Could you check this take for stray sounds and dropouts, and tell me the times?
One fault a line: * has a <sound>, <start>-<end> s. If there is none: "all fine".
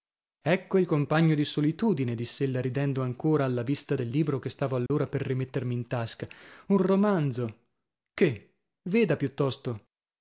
* has a dropout, 4.9-4.9 s